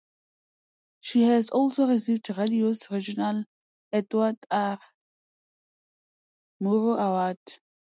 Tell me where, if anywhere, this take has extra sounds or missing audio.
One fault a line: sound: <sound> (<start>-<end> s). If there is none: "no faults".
no faults